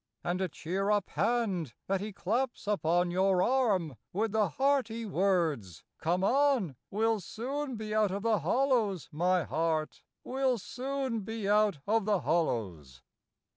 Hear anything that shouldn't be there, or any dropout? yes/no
no